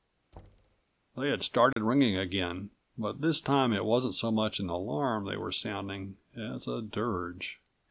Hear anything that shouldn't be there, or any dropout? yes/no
yes